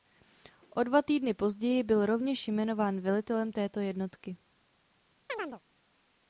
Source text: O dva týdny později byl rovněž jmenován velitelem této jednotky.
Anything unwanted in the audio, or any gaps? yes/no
yes